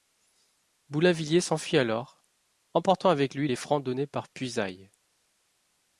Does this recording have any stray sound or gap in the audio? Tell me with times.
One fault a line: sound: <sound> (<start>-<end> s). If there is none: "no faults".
no faults